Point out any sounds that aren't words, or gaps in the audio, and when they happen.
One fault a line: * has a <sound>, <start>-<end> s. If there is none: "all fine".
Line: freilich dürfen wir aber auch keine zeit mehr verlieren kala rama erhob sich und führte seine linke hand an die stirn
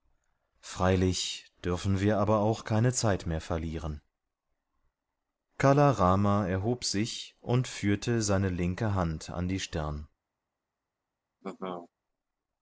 * has a laugh, 11.4-11.9 s